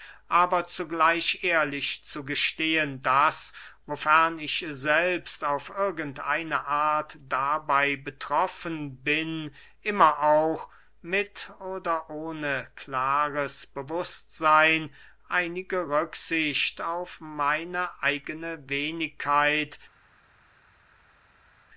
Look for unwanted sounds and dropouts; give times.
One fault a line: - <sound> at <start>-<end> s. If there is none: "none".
none